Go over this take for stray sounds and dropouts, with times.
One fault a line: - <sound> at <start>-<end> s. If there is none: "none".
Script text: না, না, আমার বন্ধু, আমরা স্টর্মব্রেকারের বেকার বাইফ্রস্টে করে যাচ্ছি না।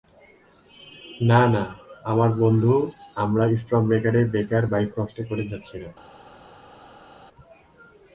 none